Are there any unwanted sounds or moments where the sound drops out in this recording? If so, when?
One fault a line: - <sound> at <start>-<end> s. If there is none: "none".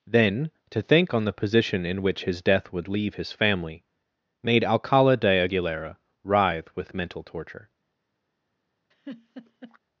- laugh at 8.9-9.8 s